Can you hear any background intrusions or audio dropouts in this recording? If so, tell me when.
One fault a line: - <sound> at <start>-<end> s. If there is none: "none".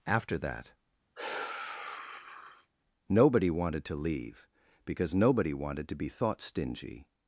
- sigh at 1.2-2.7 s